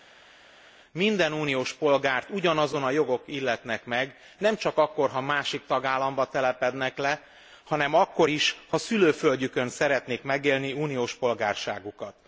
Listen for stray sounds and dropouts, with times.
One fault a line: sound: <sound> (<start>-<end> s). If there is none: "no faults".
no faults